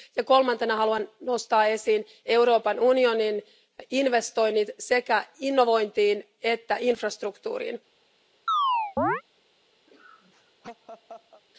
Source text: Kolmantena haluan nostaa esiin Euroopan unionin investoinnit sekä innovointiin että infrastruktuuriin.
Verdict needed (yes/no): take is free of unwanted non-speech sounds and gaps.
no